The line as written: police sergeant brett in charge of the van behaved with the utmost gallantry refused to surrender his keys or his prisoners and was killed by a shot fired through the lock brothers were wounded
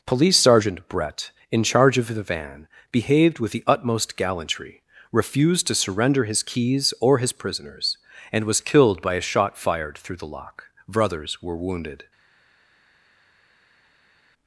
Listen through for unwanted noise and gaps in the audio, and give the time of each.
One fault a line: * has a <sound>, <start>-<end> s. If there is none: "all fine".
all fine